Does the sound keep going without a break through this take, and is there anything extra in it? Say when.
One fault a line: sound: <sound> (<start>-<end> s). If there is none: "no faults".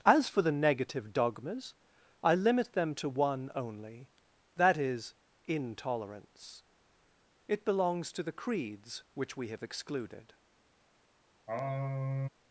sound: sigh (11.5-12.3 s)